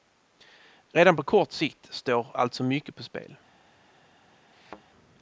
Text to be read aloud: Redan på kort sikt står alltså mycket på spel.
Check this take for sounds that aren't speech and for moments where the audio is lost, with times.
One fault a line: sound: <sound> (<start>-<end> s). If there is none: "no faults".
sound: thud (4.5-4.8 s)